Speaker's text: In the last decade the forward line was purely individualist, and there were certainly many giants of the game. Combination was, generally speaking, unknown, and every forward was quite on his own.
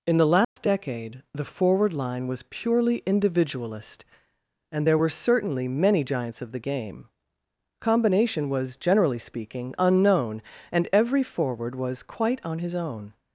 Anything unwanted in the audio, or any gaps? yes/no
yes